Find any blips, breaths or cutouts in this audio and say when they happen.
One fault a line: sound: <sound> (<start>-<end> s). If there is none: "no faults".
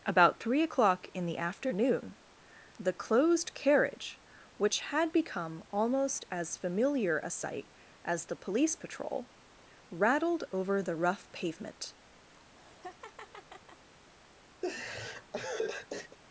sound: laugh (12.3-13.9 s)
sound: laugh (14.6-16.2 s)